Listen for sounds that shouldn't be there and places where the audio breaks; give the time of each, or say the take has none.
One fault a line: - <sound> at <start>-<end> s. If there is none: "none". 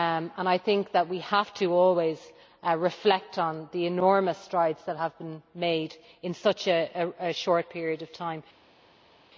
none